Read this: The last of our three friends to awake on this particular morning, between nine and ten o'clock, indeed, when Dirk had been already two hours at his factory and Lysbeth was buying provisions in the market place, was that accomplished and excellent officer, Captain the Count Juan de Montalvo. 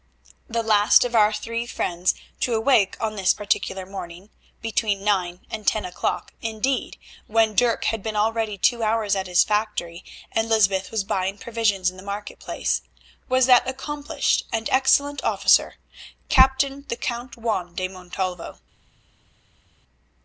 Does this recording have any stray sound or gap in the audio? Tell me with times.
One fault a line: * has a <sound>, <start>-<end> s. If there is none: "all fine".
all fine